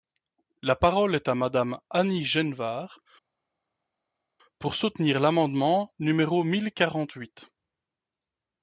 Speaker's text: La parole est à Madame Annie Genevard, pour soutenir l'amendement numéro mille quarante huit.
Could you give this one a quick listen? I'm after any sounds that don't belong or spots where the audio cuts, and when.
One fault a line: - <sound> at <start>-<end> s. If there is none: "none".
none